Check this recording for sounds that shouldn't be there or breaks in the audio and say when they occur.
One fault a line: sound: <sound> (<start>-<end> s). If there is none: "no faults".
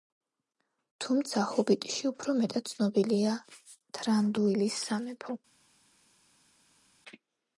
no faults